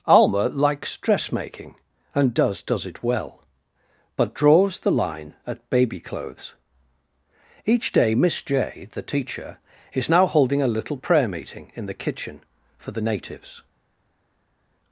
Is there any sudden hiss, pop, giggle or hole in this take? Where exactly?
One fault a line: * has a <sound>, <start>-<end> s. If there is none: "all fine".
all fine